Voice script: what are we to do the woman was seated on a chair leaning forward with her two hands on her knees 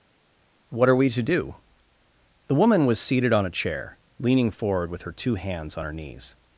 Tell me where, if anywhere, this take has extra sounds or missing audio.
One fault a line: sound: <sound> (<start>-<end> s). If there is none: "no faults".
no faults